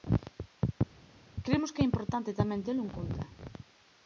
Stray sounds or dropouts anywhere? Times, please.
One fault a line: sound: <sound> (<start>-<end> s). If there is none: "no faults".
no faults